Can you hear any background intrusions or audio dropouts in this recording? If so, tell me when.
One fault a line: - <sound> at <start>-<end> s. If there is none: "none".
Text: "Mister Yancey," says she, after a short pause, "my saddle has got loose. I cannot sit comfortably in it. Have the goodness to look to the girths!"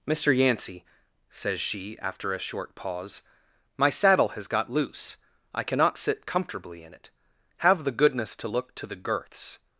none